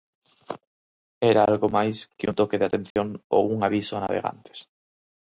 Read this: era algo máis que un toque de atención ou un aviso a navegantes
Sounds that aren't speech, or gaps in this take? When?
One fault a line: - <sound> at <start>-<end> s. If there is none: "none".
- dropout at 2.9-3.0 s